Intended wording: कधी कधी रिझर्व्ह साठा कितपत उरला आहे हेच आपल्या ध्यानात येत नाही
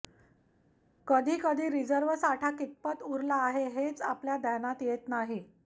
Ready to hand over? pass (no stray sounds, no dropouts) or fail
pass